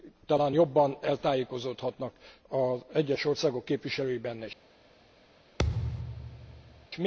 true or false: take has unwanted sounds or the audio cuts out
true